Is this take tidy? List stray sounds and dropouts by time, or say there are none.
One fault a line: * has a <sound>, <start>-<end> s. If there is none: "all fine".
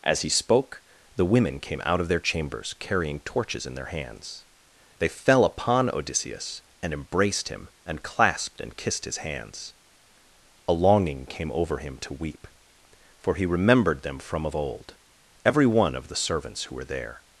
all fine